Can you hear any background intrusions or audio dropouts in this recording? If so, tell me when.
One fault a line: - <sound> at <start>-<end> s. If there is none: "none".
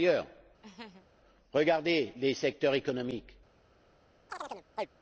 - laugh at 0.6-1.1 s
- chirp at 4.3-4.9 s